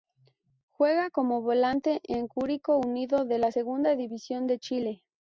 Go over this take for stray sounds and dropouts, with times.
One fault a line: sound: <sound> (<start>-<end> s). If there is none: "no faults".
no faults